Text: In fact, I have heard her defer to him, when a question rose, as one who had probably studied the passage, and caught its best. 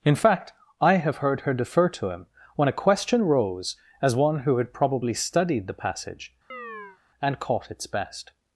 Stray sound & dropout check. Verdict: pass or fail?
fail